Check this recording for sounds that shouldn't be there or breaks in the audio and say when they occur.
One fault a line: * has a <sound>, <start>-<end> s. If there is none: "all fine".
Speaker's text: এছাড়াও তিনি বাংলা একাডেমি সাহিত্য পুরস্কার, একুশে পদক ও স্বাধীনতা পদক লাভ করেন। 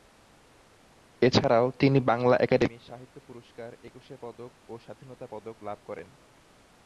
all fine